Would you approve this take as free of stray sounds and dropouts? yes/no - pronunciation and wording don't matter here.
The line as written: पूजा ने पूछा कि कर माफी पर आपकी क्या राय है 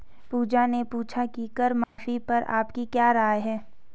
no